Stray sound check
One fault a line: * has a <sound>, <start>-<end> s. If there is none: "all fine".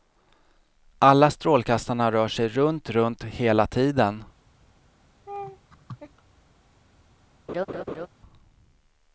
* has a laugh, 5.3-6.2 s
* has a laugh, 7.5-8.1 s